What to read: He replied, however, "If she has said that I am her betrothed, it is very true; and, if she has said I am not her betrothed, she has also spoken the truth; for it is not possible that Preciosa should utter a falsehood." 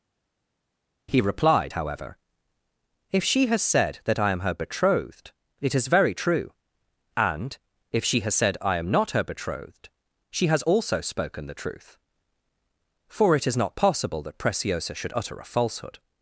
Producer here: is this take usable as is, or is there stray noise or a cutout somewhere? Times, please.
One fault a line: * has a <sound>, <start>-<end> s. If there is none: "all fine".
all fine